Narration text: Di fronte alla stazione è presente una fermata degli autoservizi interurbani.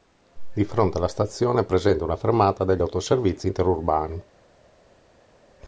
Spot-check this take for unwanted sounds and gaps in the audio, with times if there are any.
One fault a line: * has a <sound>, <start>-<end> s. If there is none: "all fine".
all fine